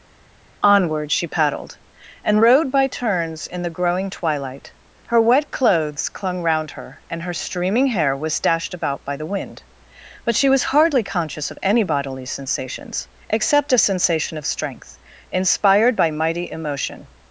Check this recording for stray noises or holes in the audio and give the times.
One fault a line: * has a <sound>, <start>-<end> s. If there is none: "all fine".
all fine